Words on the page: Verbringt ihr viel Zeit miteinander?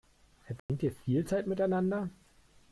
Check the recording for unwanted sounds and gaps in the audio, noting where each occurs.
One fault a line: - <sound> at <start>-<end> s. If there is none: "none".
- dropout at 0.6-0.7 s